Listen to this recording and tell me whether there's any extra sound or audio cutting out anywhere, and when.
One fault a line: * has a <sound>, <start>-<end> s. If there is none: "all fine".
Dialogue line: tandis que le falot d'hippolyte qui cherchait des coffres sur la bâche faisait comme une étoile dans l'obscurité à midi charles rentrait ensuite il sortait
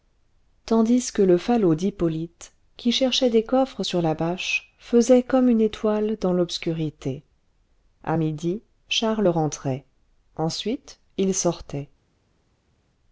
all fine